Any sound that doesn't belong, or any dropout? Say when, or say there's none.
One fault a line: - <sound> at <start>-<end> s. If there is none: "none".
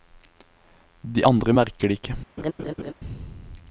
- laugh at 2.4-2.9 s